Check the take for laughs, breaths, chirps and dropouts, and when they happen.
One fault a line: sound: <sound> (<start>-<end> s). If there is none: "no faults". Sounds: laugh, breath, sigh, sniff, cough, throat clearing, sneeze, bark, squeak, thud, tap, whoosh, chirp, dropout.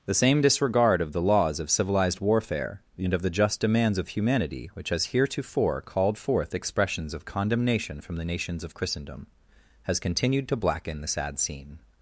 no faults